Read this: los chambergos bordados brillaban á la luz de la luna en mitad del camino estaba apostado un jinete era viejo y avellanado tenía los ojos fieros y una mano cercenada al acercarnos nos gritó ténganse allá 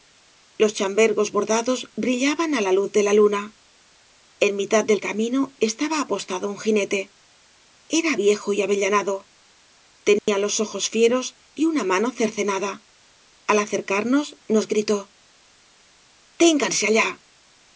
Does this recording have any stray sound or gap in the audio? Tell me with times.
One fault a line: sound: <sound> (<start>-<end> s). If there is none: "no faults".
sound: dropout (10.2-10.3 s)